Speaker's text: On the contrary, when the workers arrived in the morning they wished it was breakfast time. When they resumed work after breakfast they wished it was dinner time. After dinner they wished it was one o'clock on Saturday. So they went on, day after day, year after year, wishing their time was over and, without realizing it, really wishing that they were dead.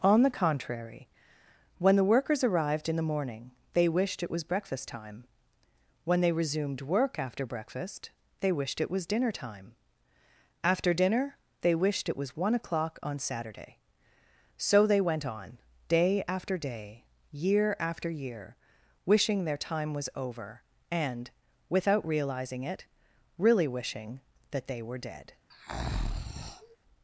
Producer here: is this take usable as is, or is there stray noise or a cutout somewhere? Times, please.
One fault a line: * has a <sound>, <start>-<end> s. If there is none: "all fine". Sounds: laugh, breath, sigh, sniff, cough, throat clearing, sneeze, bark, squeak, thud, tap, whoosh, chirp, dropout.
* has a breath, 25.5-26.8 s